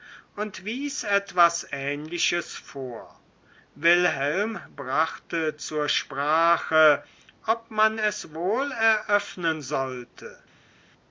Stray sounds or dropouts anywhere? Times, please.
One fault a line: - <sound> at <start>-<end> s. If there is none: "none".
none